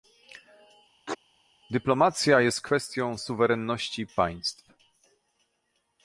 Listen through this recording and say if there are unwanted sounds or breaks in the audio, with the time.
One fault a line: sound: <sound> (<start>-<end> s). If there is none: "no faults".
sound: sneeze (1.1-1.2 s)